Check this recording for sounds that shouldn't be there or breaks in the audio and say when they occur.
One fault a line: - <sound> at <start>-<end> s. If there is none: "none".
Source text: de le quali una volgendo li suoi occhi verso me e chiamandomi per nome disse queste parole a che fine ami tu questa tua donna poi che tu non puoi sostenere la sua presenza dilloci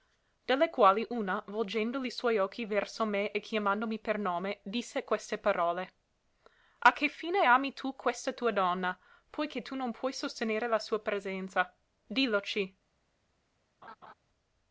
- laugh at 13.8-14.1 s